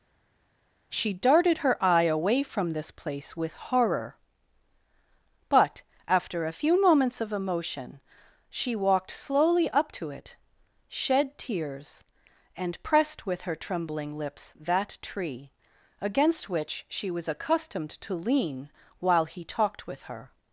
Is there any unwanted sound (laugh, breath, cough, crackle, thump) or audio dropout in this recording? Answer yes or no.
no